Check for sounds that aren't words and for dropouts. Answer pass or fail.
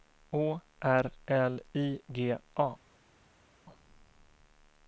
pass